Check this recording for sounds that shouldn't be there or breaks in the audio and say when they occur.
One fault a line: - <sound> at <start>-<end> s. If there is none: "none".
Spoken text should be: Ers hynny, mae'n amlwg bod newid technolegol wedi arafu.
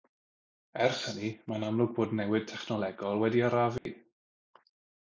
- dropout at 3.8-3.9 s